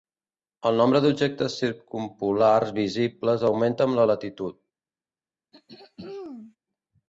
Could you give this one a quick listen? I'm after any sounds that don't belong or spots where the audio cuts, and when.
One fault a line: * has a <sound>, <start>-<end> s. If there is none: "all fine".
* has a throat clearing, 5.5-6.6 s